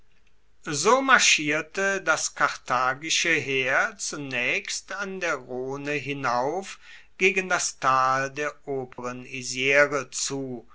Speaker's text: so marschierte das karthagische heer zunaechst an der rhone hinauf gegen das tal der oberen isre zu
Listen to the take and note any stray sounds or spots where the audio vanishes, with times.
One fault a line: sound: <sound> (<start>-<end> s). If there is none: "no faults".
sound: dropout (8.9-9.0 s)